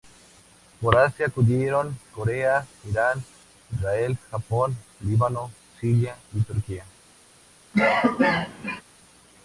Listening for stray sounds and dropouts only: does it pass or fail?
fail